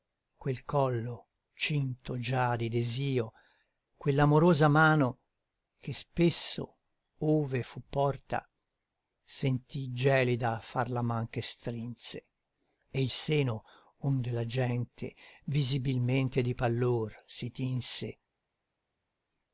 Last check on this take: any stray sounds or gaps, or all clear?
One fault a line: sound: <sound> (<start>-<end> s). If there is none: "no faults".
no faults